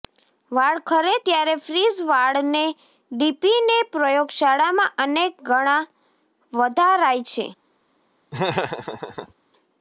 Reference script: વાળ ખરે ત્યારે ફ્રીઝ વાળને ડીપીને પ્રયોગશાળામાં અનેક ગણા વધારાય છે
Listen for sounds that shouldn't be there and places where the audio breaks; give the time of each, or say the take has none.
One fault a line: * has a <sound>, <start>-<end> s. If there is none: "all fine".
* has a laugh, 8.3-9.3 s